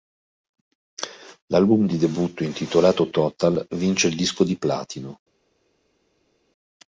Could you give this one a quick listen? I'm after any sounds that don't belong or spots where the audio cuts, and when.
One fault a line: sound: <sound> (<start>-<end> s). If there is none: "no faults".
no faults